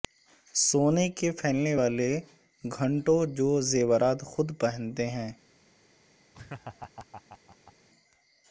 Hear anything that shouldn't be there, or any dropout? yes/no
yes